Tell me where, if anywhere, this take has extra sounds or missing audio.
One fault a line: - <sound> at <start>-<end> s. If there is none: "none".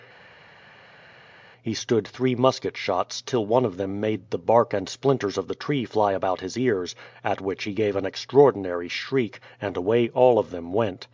none